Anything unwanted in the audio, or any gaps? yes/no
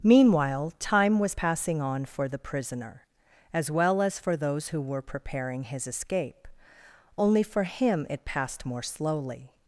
no